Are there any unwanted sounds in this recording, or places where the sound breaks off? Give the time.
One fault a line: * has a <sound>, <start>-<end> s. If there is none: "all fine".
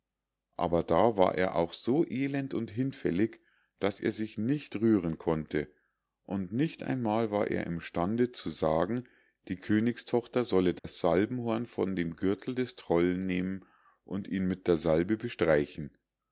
* has a dropout, 10.8-10.8 s